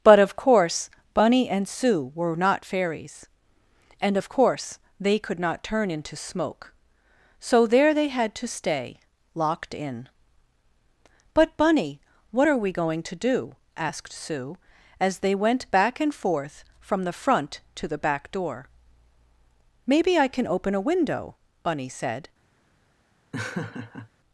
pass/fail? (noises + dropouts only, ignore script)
fail